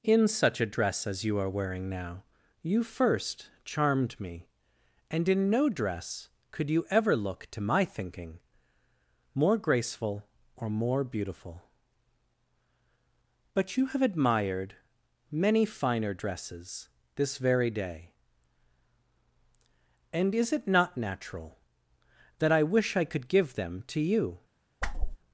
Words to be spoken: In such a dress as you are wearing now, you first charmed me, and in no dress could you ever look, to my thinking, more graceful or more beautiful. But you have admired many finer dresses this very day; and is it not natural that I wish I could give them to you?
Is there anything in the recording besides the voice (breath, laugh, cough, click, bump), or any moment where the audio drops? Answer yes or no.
yes